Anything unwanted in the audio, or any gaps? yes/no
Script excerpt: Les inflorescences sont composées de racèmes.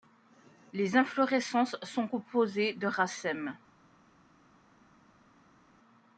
no